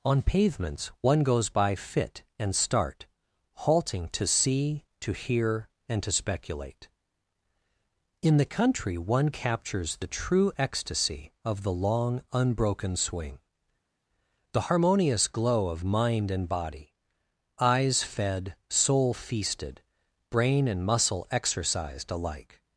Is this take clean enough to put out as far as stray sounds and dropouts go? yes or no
yes